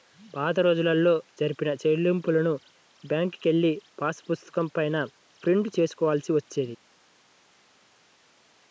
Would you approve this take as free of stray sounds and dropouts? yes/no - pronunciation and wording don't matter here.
yes